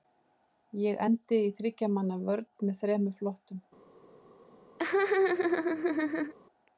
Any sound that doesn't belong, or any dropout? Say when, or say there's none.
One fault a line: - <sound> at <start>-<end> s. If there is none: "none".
- laugh at 4.8-6.3 s